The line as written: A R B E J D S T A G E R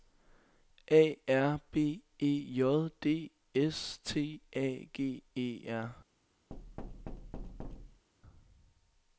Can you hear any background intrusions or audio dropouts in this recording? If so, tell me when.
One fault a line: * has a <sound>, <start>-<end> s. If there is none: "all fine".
* has a thud, 6.5-8.1 s